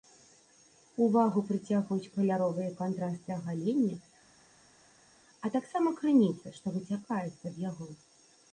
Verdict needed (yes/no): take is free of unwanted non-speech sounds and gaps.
yes